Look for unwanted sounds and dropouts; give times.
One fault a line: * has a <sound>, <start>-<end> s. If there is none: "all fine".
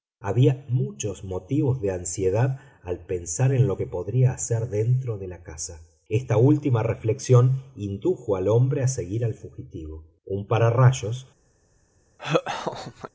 * has a laugh, 12.2-13.1 s